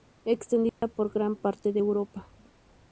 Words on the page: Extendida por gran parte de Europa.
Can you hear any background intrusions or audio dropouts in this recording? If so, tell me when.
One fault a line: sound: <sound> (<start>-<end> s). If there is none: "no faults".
sound: dropout (0.7-0.8 s)